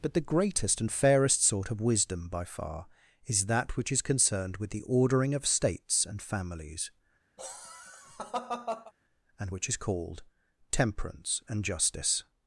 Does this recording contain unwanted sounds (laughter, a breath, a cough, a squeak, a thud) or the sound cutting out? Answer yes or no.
yes